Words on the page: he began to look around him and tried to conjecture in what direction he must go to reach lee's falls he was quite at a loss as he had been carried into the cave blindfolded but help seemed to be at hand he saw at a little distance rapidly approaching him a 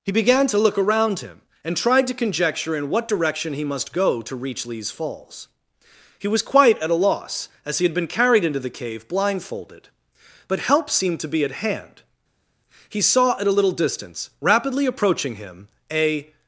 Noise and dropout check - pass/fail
pass